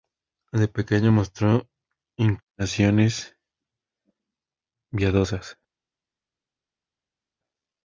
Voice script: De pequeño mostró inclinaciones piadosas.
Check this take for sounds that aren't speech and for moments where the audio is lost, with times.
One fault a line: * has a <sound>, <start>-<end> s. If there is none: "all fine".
all fine